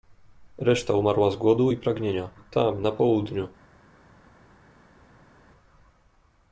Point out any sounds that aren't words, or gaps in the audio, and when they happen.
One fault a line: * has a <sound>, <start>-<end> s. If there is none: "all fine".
all fine